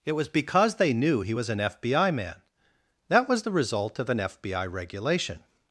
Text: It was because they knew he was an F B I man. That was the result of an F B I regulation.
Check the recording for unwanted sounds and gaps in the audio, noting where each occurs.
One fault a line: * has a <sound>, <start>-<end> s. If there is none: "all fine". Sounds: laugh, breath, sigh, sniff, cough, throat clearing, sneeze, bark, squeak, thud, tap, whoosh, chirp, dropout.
all fine